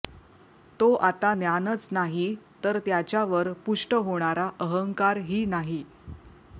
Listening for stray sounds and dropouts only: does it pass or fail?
pass